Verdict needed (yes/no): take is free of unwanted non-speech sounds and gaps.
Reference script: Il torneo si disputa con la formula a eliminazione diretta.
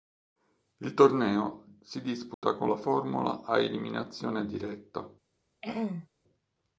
no